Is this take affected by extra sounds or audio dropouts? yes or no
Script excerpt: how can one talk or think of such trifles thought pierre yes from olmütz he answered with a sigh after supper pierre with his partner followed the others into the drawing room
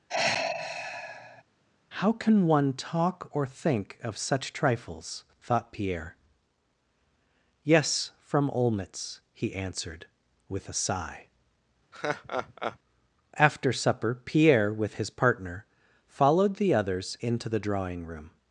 yes